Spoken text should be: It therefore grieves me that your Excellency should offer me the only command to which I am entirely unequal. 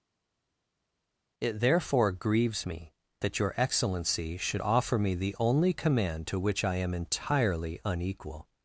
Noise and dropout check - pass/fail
pass